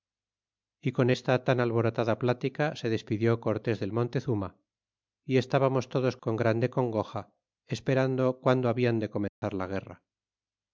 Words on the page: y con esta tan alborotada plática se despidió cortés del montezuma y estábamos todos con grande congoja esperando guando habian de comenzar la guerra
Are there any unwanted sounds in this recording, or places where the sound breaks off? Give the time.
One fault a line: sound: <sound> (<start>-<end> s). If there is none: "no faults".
sound: dropout (9.3-9.4 s)